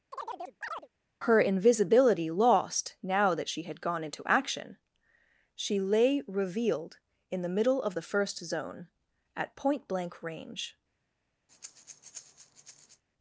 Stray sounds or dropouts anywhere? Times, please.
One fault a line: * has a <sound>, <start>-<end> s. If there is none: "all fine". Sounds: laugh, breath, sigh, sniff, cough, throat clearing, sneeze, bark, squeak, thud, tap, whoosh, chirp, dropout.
* has a chirp, 0.1-0.9 s
* has a breath, 11.5-13.0 s